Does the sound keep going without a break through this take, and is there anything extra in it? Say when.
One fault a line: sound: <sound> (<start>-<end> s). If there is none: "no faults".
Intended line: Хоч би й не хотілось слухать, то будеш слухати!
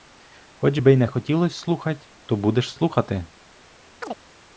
sound: chirp (4.0-4.2 s)